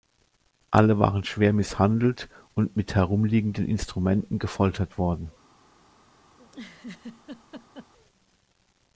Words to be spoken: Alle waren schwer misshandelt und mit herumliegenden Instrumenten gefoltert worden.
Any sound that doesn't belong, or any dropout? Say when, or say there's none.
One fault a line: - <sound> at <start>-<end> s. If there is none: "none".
- laugh at 6.4-7.9 s